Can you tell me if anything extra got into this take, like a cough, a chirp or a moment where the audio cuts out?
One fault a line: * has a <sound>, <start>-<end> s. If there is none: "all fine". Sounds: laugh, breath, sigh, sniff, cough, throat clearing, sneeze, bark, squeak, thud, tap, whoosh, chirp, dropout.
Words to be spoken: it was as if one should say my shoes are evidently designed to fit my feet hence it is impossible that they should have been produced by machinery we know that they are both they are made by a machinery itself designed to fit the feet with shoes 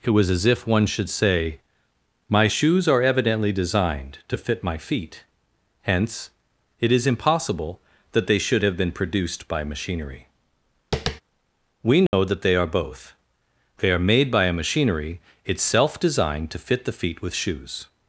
* has a tap, 10.9-11.2 s
* has a dropout, 12.1-12.1 s